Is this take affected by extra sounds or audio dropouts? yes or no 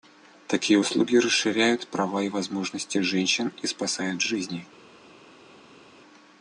no